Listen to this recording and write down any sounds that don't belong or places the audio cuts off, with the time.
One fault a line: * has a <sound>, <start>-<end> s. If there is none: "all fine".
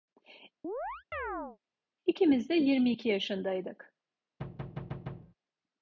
* has a chirp, 0.6-1.6 s
* has a thud, 4.4-5.3 s